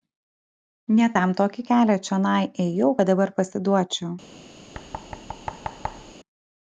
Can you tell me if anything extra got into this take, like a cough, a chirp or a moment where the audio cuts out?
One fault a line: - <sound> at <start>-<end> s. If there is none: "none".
- thud at 4.7-6.1 s